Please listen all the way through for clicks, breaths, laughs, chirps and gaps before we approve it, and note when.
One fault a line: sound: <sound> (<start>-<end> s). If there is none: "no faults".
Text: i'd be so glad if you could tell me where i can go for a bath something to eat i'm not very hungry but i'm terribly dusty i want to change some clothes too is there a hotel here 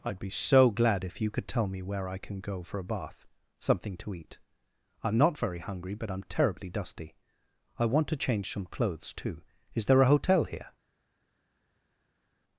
no faults